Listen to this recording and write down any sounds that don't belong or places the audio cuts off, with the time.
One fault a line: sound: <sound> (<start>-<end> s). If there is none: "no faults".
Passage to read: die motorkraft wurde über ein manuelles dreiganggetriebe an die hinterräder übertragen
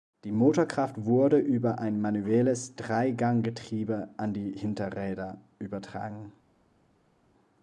no faults